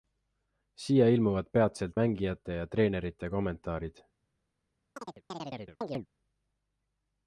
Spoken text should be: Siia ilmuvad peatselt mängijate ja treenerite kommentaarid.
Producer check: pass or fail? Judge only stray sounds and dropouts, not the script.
fail